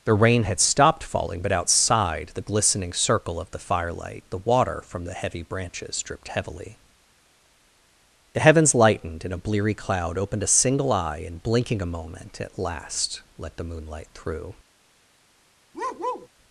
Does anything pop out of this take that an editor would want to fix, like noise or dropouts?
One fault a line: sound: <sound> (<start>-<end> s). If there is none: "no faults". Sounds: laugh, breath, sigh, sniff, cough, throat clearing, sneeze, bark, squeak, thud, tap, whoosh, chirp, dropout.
sound: bark (15.7-16.3 s)